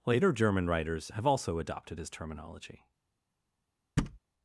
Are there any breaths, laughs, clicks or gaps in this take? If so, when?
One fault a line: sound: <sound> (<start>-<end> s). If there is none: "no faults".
sound: thud (4.0-4.2 s)